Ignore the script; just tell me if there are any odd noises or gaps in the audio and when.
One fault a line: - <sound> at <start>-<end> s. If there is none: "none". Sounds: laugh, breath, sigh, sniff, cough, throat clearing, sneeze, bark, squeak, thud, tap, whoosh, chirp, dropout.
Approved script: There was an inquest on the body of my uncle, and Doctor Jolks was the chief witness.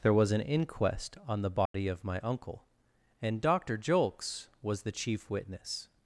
- dropout at 1.7-1.7 s